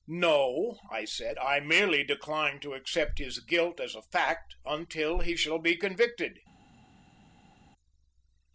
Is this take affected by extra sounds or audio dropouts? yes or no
no